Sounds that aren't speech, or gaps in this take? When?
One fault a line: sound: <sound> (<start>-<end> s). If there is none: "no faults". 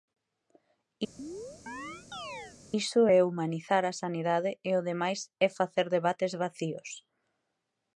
sound: chirp (1.2-2.6 s)